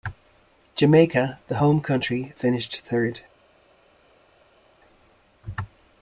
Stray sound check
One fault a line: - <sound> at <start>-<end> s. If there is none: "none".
none